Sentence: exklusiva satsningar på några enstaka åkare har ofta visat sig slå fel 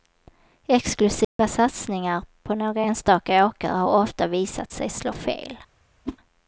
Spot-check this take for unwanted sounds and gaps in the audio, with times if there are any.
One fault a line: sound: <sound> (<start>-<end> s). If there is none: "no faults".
sound: dropout (1.2-1.4 s)
sound: whoosh (6.1-6.2 s)